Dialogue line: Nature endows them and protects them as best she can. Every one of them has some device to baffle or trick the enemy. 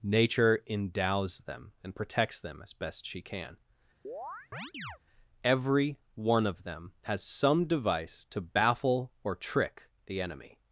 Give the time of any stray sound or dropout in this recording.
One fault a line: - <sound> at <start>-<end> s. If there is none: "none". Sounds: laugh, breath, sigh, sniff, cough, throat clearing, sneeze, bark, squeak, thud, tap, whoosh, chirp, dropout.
- chirp at 4.0-5.0 s